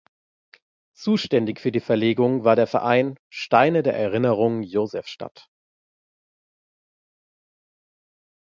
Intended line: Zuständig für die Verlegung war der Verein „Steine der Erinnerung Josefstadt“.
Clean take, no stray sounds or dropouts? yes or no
yes